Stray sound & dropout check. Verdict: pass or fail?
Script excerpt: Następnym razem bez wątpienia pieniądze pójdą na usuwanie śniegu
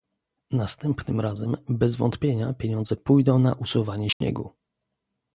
fail